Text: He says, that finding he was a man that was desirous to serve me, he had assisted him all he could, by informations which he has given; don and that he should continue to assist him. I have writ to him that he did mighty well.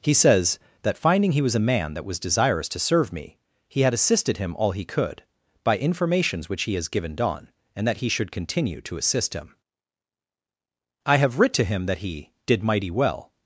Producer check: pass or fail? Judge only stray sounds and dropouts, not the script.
pass